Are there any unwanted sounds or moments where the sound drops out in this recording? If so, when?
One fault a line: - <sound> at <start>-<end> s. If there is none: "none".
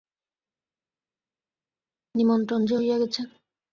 none